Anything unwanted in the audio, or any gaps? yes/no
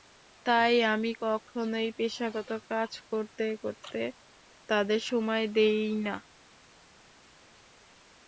no